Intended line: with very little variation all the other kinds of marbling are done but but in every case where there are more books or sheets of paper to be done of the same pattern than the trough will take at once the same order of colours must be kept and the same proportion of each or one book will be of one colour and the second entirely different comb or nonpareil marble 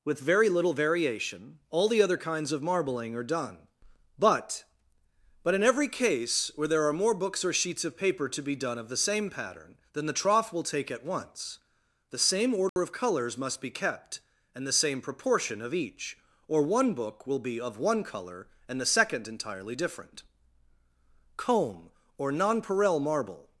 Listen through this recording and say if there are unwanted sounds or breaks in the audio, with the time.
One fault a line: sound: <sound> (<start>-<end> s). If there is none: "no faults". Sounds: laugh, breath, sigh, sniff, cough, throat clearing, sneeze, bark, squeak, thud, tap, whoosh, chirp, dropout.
sound: dropout (12.7-12.8 s)